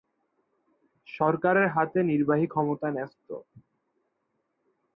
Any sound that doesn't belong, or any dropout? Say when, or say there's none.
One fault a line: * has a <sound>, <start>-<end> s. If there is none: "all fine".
all fine